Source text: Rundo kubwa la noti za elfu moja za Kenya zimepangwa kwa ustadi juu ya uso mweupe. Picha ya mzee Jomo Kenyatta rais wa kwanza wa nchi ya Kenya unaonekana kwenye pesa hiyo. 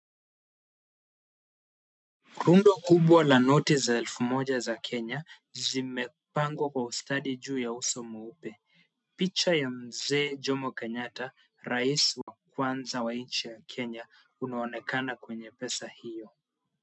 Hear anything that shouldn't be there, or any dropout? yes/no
yes